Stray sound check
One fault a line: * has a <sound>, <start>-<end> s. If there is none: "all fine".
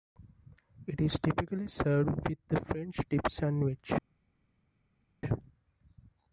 all fine